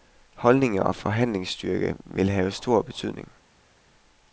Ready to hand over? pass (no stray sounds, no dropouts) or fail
pass